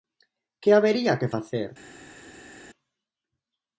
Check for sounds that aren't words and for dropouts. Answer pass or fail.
pass